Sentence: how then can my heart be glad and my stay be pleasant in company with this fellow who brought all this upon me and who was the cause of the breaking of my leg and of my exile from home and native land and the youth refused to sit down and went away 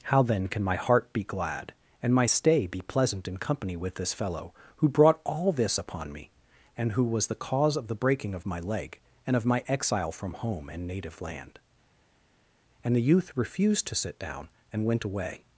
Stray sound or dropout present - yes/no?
no